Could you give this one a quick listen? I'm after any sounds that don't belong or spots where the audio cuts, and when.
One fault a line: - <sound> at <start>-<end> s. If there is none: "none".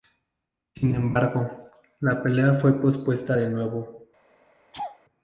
- laugh at 4.7-5.0 s